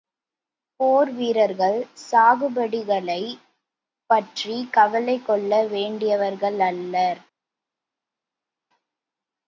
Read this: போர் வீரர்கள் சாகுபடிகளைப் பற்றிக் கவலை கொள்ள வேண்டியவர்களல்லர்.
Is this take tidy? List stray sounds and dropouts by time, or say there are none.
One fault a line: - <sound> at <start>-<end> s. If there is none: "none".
none